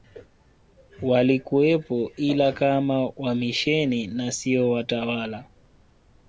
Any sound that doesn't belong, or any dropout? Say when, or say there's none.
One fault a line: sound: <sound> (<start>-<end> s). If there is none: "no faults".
no faults